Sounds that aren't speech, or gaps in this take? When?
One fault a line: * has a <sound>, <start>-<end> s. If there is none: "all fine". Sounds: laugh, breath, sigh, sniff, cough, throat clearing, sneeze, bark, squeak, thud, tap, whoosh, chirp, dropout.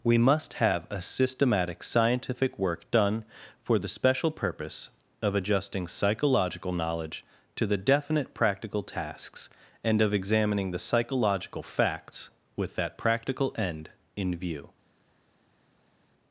all fine